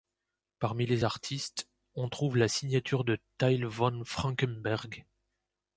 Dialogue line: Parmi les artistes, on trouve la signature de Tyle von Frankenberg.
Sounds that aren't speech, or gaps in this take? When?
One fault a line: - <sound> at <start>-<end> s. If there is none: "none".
none